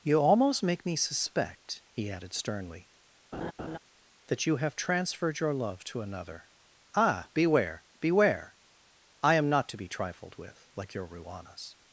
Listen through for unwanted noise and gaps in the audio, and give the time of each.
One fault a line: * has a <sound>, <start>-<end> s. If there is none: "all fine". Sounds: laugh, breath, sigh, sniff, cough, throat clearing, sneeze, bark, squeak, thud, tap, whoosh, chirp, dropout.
* has a laugh, 3.3-3.8 s